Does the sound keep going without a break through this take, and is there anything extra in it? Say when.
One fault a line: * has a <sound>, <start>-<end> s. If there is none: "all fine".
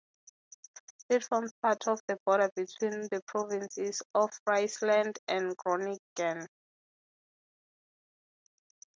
all fine